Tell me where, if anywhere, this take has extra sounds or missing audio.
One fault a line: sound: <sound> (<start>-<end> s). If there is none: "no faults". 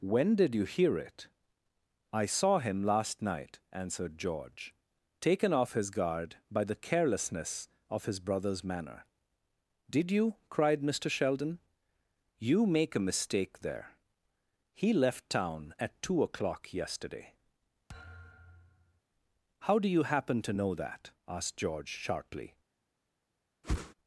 sound: thud (17.9-19.0 s)
sound: whoosh (23.6-23.9 s)